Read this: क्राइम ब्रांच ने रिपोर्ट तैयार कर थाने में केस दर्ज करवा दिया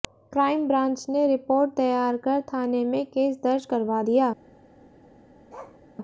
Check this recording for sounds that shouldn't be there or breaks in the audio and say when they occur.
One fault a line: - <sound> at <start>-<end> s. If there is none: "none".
- bark at 5.5-5.8 s